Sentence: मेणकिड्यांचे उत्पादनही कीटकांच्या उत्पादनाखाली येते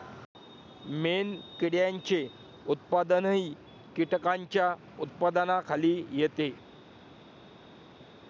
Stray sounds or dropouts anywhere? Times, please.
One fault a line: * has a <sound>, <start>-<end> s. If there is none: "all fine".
all fine